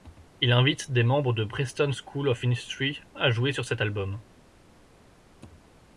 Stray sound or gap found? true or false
false